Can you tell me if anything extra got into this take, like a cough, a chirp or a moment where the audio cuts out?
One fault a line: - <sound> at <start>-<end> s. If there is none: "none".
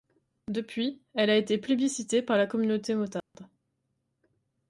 - dropout at 3.2-3.3 s